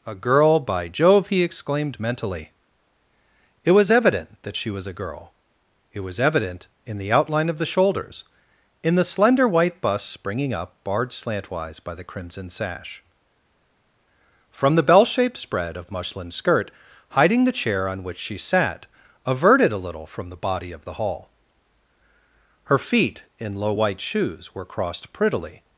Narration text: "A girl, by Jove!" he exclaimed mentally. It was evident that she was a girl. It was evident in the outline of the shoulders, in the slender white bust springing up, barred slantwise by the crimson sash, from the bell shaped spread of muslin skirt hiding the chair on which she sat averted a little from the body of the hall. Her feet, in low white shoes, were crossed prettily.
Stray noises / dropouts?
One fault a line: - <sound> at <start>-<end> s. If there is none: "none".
none